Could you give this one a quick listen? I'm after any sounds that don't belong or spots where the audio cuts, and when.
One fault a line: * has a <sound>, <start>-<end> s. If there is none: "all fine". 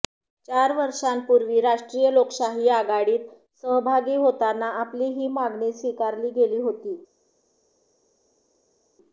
all fine